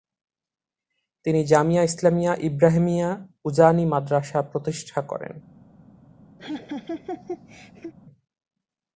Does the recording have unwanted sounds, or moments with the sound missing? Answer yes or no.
yes